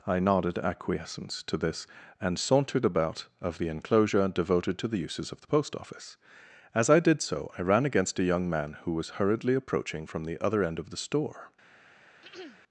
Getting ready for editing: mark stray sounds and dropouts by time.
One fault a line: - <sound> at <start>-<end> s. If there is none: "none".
- throat clearing at 12.2-12.6 s